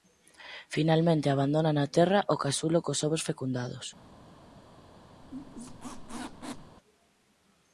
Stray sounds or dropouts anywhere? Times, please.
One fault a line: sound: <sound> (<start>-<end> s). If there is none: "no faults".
sound: squeak (5.2-6.8 s)